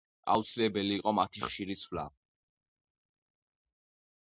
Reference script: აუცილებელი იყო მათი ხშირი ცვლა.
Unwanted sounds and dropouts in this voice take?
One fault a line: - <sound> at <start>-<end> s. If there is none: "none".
none